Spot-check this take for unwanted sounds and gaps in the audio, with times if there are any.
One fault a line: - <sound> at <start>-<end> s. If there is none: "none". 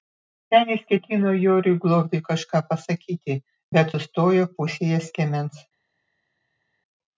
none